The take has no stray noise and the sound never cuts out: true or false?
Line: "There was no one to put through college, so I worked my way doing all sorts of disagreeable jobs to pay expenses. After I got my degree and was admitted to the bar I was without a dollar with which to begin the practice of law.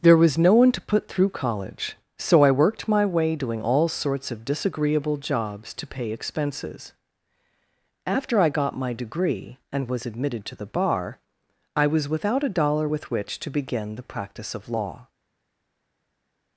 true